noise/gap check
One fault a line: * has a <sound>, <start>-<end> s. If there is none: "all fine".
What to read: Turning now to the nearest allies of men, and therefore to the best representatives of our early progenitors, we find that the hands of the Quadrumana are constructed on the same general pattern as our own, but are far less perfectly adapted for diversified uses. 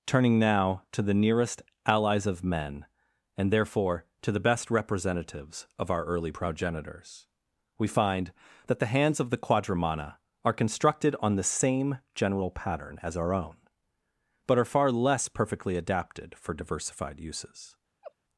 * has a laugh, 18.0-18.1 s